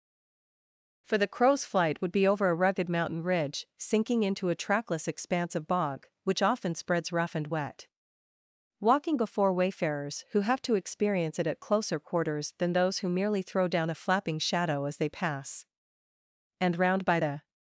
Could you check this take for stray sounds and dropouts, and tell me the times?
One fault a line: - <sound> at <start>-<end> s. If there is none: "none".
none